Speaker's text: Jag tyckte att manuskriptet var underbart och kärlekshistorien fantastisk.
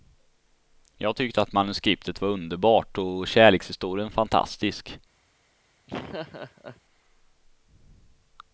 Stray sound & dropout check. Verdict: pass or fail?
fail